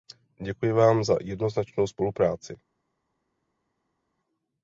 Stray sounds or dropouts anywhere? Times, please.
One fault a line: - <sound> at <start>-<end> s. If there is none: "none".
none